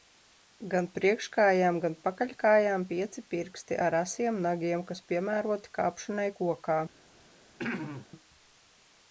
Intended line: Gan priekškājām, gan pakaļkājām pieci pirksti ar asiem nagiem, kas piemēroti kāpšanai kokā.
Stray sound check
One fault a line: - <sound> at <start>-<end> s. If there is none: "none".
- throat clearing at 7.6-8.1 s